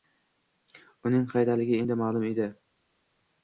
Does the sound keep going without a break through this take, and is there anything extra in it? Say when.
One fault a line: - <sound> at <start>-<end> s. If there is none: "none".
none